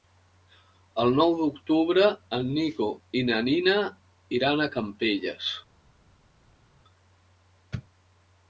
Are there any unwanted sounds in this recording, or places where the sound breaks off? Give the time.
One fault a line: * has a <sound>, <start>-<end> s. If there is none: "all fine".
all fine